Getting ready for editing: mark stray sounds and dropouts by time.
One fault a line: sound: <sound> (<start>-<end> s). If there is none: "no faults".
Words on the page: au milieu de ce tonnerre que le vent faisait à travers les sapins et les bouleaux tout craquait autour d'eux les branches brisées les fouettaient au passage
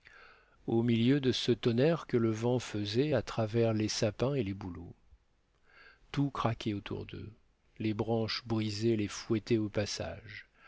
no faults